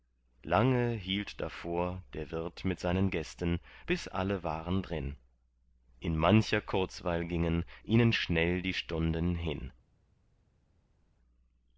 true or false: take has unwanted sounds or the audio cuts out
false